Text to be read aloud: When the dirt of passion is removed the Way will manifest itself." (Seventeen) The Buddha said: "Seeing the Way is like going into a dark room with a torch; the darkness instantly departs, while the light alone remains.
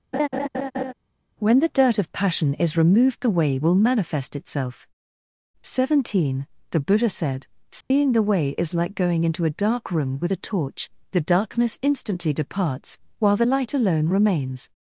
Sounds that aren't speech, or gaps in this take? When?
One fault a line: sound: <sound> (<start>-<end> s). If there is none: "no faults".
sound: laugh (0.1-0.9 s)
sound: dropout (7.8-7.9 s)